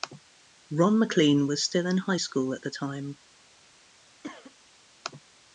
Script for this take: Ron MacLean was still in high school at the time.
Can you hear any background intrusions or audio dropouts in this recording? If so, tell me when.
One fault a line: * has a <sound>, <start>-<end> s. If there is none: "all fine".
* has a cough, 4.2-4.5 s